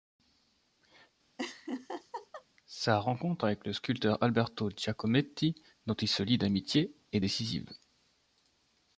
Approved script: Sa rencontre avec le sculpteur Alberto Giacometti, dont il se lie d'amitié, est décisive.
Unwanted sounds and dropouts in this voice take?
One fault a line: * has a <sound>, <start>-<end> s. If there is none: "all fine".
* has a laugh, 1.4-2.4 s